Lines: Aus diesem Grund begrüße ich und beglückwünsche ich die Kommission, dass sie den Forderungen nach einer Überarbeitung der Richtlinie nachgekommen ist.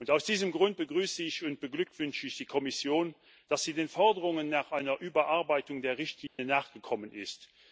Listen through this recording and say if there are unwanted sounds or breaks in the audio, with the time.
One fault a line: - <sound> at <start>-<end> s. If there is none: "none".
- dropout at 6.3-6.4 s